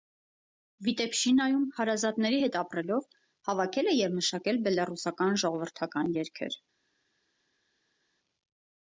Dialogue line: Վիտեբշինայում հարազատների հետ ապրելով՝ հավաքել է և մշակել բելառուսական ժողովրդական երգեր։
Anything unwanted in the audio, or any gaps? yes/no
no